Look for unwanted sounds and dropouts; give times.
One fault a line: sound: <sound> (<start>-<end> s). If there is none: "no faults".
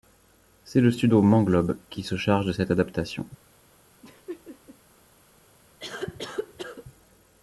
sound: laugh (4.0-4.8 s)
sound: cough (5.8-6.9 s)